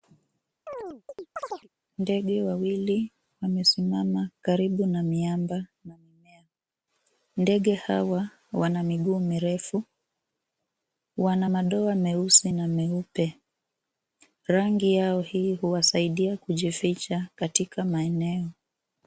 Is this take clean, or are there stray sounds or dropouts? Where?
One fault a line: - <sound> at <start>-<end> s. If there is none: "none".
- chirp at 0.7-1.7 s